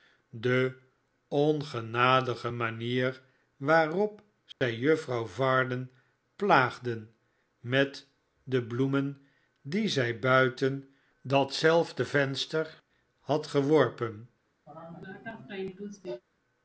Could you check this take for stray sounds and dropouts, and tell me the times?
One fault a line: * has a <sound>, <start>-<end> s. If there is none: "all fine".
* has a dropout, 4.5-4.6 s
* has a sneeze, 14.7-16.2 s